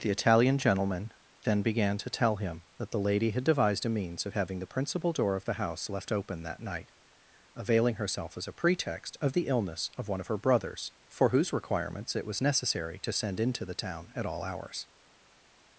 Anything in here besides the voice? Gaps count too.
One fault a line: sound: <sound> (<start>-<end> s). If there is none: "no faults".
no faults